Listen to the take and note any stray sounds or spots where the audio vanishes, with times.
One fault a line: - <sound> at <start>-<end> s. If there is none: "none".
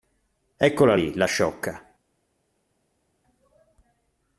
none